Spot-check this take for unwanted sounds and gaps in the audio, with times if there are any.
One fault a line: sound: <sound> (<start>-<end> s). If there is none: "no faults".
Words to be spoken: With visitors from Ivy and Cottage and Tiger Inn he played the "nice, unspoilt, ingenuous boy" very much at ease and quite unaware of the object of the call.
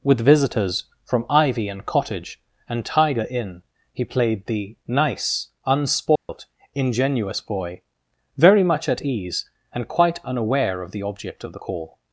sound: dropout (6.2-6.3 s)